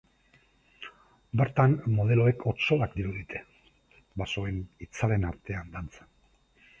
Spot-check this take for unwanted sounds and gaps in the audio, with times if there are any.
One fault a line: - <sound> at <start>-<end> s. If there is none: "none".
none